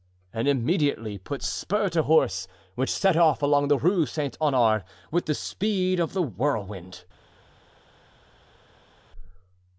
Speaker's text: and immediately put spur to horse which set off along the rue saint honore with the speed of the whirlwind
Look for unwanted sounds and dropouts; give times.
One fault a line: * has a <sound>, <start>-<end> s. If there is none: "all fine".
all fine